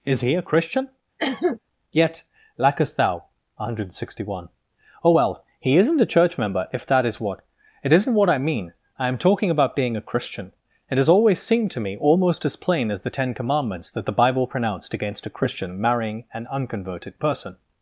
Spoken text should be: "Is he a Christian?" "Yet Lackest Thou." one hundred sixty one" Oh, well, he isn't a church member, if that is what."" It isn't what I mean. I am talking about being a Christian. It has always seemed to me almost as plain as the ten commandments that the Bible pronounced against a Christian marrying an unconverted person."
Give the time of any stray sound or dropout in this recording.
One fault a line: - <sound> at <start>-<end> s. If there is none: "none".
- cough at 1.2-1.6 s